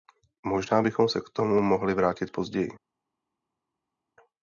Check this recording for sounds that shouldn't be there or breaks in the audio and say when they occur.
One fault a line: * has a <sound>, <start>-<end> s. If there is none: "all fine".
all fine